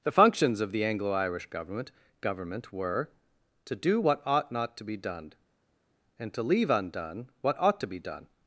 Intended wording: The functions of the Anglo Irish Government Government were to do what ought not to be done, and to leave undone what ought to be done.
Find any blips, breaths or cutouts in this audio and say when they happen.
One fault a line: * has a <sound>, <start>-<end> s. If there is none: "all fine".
all fine